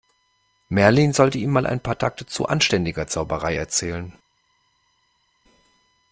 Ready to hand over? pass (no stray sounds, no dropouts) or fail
pass